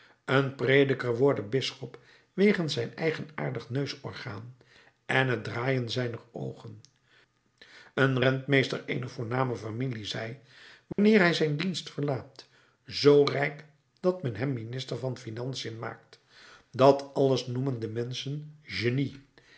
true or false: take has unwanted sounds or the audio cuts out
true